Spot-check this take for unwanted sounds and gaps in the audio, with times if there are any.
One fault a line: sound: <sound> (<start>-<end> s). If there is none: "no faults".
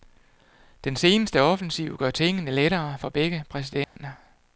sound: dropout (3.8-4.0 s)